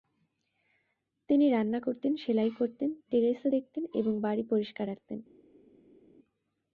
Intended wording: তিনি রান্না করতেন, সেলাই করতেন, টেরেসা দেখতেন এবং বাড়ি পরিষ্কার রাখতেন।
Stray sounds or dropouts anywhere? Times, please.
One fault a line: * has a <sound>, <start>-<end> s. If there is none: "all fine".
all fine